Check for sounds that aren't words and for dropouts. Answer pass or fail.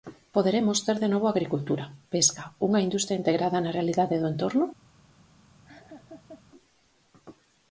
fail